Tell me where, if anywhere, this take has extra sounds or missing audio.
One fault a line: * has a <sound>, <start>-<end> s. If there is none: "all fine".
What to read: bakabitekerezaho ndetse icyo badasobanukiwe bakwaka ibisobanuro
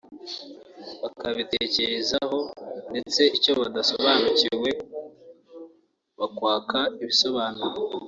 all fine